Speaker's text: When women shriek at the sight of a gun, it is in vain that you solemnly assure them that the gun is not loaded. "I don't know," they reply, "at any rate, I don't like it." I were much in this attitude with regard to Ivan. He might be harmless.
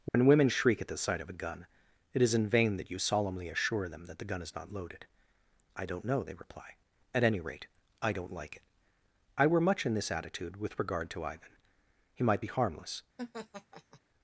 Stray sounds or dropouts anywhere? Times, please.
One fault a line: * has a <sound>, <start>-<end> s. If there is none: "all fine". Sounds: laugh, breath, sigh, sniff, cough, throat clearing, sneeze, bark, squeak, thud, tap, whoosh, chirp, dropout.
* has a dropout, 0.1-0.1 s
* has a laugh, 13.2-14.0 s